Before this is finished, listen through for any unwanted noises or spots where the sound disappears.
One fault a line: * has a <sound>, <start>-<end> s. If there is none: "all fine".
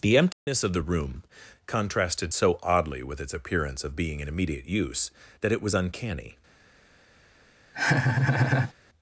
* has a dropout, 0.3-0.5 s
* has a laugh, 7.7-8.7 s